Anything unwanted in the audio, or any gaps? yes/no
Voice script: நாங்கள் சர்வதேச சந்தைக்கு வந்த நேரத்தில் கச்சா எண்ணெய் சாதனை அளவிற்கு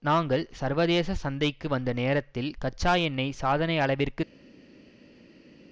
no